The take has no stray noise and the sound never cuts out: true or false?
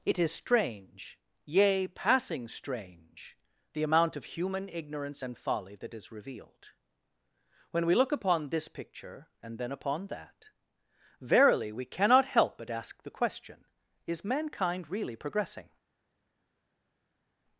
true